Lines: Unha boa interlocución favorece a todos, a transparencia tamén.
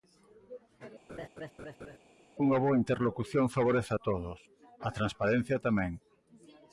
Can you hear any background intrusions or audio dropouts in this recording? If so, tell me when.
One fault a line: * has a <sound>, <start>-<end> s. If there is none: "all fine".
* has a laugh, 1.1-2.0 s